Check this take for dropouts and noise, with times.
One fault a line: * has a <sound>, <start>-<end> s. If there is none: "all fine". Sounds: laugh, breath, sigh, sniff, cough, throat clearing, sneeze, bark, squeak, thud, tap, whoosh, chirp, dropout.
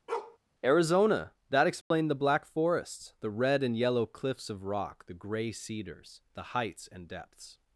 * has a bark, 0.1-0.4 s
* has a dropout, 1.8-1.9 s